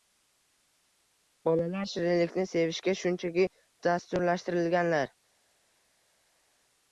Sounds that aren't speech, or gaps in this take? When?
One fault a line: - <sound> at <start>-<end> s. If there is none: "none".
none